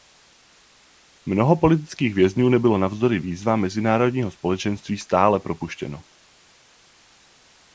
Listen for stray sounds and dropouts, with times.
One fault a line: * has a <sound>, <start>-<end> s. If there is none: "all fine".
all fine